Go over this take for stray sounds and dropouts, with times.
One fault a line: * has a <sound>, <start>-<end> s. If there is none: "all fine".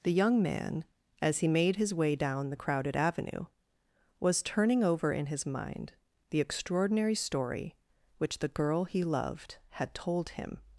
all fine